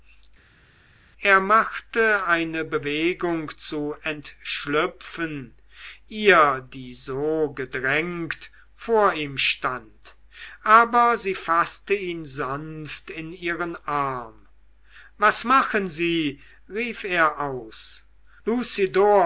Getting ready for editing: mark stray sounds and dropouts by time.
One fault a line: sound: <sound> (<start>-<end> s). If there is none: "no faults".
no faults